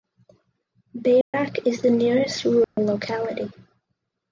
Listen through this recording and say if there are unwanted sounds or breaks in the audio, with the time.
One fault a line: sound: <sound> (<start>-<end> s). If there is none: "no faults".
sound: dropout (1.2-1.3 s)
sound: dropout (2.6-2.8 s)